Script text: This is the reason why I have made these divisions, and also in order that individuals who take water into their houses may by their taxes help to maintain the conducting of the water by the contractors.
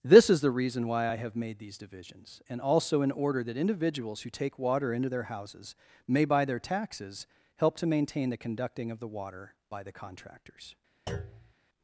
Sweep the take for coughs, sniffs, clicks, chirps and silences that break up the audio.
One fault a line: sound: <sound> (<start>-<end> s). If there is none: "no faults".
sound: thud (11.1-11.5 s)